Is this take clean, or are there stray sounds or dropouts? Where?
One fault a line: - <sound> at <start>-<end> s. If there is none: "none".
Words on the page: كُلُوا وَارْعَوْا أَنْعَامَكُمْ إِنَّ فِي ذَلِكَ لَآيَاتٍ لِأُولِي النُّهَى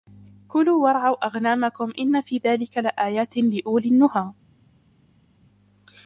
none